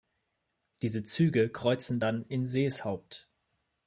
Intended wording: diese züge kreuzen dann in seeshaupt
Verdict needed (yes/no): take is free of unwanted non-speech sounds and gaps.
yes